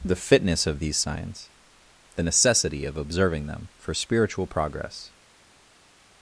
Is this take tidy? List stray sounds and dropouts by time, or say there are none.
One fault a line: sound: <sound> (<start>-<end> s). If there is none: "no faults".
no faults